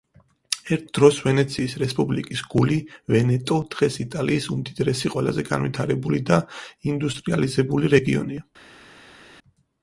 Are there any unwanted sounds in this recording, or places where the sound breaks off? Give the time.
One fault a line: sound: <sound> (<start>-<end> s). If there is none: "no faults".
no faults